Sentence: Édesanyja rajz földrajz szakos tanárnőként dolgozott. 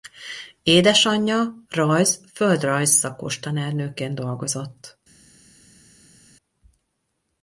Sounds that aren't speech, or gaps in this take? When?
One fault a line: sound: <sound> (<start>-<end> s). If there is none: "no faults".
no faults